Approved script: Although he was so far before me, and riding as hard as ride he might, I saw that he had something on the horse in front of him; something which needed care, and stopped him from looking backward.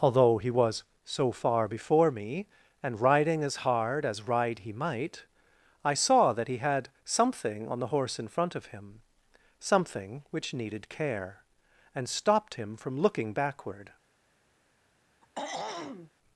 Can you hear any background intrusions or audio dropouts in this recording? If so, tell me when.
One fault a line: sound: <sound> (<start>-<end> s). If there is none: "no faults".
sound: throat clearing (15.2-16.1 s)